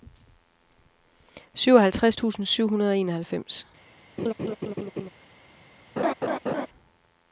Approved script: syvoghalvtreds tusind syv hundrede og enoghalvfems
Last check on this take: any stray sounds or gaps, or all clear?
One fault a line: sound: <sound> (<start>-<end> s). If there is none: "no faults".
sound: laugh (4.2-5.1 s)
sound: laugh (6.0-6.7 s)